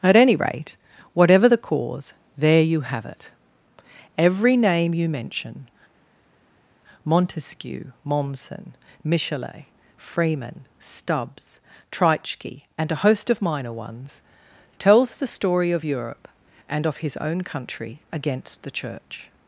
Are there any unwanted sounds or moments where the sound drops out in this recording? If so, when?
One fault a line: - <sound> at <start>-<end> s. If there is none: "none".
none